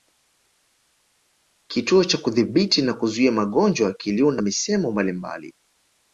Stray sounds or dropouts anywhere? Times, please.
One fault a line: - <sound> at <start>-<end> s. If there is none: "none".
none